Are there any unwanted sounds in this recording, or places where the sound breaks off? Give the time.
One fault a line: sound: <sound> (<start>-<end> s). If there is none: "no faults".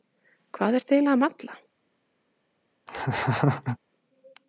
sound: laugh (2.9-3.8 s)